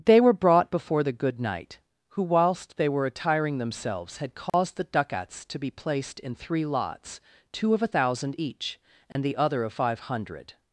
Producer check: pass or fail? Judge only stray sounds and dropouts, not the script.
fail